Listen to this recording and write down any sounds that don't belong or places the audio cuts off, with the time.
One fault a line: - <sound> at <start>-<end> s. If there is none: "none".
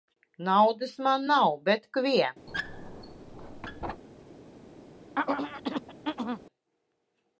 - squeak at 2.5-4.0 s
- throat clearing at 5.2-6.4 s